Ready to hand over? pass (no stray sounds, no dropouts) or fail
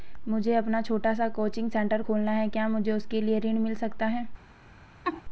fail